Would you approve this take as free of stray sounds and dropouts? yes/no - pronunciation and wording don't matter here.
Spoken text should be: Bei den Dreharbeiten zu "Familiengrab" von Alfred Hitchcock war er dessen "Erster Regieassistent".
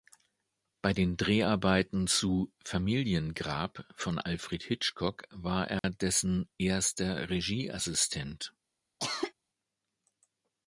no